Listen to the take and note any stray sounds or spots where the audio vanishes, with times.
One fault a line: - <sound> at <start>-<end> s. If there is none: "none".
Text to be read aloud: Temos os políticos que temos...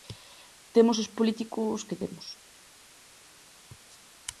none